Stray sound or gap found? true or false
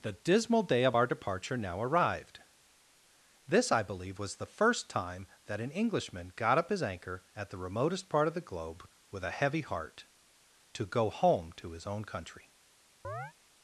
true